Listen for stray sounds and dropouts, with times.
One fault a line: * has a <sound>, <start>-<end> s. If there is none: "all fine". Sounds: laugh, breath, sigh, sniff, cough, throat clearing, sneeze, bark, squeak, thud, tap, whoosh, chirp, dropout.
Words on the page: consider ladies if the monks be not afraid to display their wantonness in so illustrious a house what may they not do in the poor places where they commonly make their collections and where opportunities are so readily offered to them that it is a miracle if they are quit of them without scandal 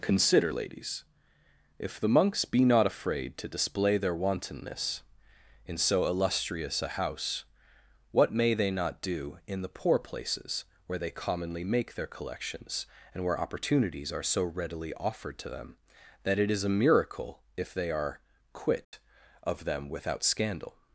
* has a dropout, 18.8-18.9 s